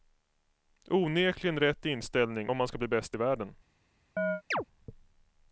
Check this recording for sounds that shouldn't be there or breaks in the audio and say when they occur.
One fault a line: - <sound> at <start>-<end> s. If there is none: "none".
- chirp at 4.2-4.6 s